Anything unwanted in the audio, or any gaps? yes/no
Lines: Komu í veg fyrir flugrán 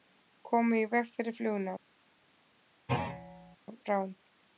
yes